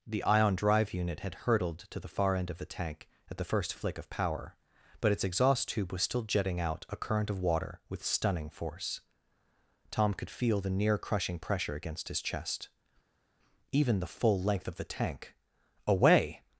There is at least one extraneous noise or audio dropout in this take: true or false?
false